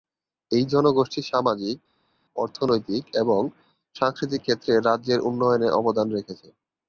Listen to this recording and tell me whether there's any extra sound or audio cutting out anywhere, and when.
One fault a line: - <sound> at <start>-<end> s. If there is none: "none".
none